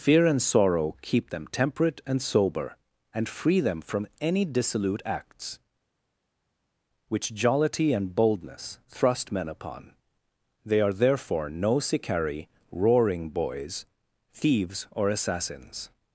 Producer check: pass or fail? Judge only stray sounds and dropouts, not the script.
pass